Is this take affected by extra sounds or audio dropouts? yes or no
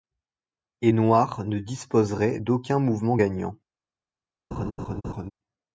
yes